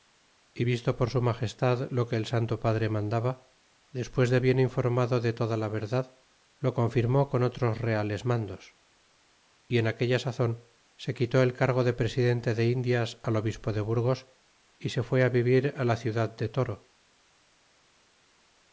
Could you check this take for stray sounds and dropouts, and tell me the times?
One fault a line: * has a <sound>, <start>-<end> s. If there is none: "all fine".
all fine